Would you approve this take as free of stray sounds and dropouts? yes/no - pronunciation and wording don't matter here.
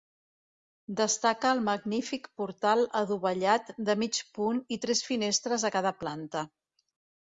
yes